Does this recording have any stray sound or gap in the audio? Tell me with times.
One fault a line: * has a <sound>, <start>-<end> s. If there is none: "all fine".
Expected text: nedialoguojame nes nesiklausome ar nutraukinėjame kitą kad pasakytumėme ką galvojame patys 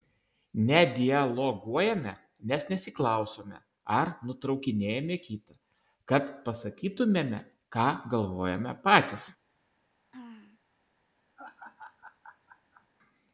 * has a throat clearing, 10.1-10.6 s
* has a laugh, 11.4-12.9 s